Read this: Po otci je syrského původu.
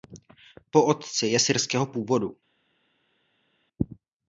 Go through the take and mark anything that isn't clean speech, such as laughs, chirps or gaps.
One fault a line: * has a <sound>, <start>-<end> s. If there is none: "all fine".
all fine